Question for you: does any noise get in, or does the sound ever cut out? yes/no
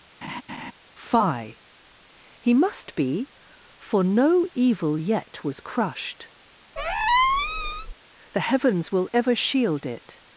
yes